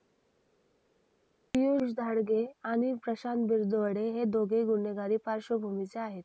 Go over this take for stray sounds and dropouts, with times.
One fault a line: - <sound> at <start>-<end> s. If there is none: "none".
none